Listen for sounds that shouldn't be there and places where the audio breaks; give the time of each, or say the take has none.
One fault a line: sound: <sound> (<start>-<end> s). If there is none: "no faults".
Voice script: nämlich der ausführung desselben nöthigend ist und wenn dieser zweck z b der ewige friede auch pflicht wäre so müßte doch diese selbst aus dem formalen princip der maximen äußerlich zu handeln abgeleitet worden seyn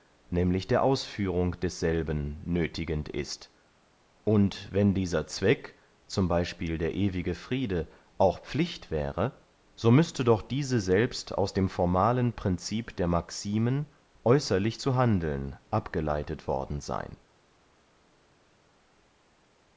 no faults